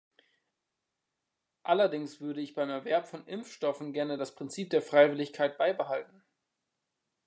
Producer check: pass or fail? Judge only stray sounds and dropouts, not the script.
pass